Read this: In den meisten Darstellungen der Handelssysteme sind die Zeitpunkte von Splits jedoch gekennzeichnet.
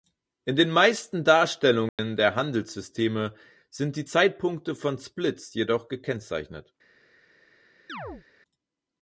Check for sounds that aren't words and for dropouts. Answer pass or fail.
fail